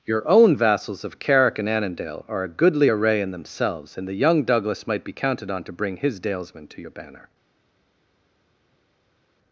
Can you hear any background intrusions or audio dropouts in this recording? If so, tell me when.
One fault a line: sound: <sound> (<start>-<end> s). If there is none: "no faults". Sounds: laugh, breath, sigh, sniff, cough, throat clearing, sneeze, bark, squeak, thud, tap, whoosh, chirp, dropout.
no faults